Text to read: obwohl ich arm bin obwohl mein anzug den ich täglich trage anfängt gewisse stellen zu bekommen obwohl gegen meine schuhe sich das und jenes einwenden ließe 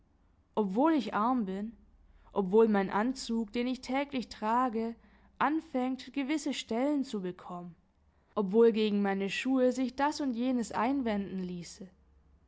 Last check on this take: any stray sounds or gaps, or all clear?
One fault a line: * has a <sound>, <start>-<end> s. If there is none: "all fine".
all fine